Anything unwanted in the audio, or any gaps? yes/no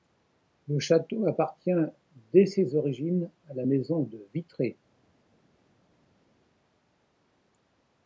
no